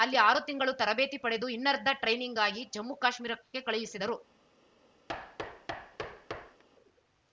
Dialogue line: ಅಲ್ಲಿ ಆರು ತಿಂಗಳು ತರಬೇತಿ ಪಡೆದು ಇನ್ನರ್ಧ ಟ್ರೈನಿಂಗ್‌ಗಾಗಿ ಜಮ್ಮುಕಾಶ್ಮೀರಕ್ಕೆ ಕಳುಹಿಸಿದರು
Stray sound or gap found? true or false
true